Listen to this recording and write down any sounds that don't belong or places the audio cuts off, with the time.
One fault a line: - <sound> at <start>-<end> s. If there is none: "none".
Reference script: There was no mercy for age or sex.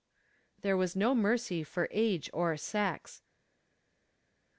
none